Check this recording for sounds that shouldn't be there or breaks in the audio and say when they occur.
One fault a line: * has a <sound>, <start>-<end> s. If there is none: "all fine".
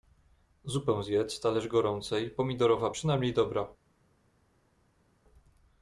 all fine